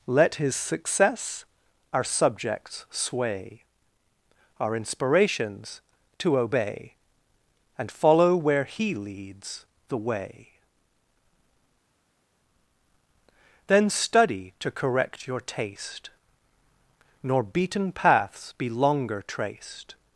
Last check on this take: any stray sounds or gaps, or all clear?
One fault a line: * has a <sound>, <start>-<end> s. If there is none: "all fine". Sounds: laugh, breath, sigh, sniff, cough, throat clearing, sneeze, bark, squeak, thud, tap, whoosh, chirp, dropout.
all fine